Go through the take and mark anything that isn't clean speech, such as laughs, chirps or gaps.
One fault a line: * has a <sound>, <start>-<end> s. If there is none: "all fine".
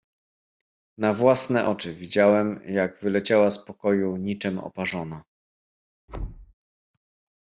* has a thud, 6.1-6.5 s